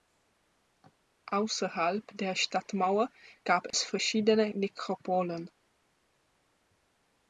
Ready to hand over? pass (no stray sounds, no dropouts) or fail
fail